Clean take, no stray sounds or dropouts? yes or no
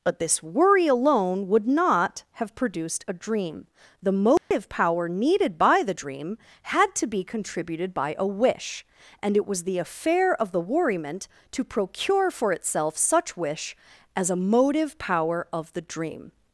no